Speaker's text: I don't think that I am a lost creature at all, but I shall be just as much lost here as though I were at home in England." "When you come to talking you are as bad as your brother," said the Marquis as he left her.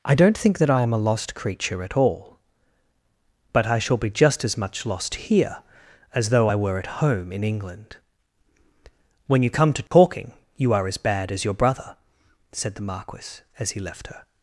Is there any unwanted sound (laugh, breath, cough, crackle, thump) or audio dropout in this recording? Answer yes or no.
yes